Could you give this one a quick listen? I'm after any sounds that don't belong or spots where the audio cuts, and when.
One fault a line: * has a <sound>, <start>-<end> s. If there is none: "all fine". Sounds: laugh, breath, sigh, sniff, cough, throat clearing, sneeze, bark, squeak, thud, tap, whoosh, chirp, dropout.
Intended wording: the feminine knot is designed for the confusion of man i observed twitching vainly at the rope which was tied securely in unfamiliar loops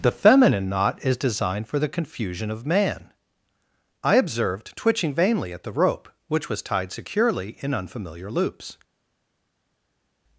all fine